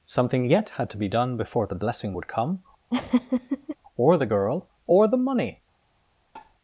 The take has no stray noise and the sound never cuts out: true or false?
false